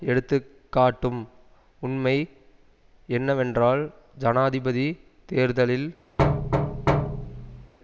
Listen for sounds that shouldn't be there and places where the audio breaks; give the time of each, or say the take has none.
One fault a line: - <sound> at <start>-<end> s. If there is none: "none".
- thud at 6.2-7.7 s